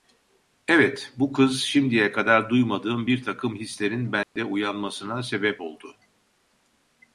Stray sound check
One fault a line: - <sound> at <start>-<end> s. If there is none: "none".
- dropout at 4.2-4.4 s